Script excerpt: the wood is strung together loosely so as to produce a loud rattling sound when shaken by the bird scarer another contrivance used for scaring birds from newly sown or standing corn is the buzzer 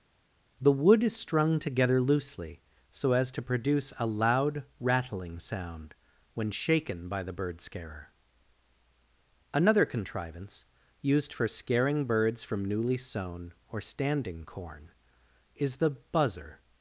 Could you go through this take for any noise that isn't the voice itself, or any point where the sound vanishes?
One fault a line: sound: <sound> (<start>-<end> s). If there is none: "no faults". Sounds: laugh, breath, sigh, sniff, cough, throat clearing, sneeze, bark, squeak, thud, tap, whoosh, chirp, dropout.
no faults